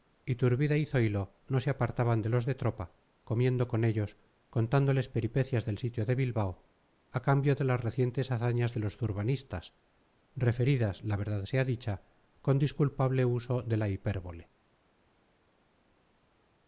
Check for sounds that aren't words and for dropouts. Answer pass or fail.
pass